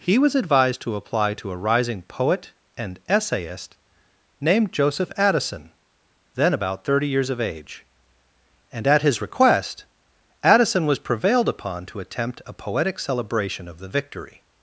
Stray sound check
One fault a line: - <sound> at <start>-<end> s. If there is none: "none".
none